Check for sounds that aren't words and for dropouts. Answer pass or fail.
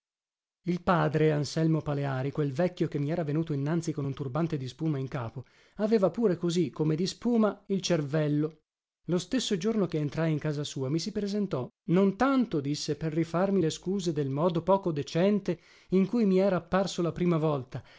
pass